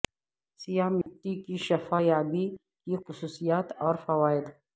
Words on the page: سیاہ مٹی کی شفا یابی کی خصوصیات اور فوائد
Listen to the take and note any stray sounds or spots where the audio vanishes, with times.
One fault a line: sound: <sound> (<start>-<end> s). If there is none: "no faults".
sound: dropout (1.0-1.1 s)